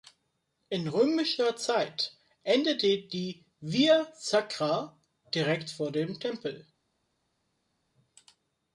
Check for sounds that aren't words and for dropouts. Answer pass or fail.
pass